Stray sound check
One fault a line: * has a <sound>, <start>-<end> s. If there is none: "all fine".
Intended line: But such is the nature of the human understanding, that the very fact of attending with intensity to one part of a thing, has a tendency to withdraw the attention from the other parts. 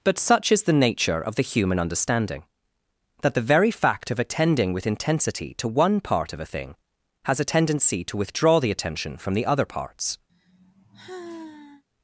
* has a sigh, 10.3-11.8 s